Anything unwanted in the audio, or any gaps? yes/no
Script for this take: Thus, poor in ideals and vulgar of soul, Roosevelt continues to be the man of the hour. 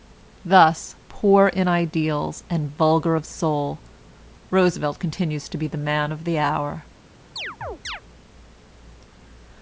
yes